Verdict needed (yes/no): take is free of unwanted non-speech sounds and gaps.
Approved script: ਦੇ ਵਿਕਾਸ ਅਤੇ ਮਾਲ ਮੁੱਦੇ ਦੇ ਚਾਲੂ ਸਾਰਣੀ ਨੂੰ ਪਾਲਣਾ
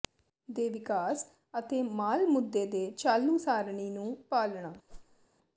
no